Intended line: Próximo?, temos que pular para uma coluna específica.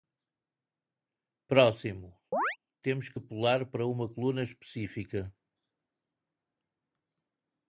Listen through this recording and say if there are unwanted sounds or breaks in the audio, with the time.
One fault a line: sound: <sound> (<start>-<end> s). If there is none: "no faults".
sound: chirp (2.3-2.6 s)